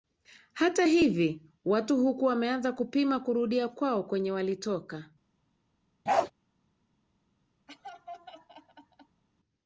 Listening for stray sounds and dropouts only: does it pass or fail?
fail